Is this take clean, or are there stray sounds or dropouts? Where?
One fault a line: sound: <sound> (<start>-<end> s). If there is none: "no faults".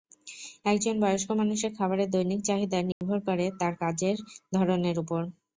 sound: dropout (2.9-3.0 s)